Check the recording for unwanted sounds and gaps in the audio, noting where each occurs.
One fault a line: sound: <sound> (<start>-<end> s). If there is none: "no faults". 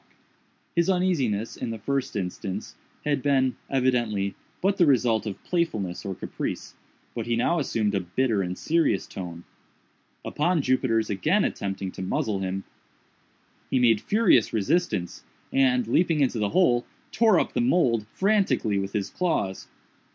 no faults